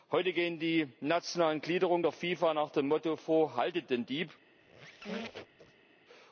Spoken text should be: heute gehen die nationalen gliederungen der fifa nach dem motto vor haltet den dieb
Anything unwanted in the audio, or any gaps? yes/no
yes